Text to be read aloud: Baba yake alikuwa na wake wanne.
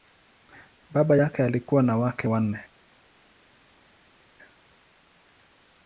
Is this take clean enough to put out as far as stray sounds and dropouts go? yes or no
yes